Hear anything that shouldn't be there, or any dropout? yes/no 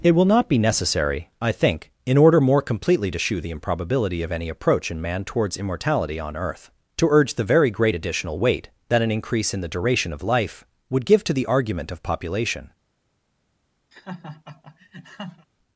yes